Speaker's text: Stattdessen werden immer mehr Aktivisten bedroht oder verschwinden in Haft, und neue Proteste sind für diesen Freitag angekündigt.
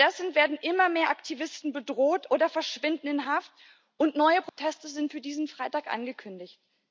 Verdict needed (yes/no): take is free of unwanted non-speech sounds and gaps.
no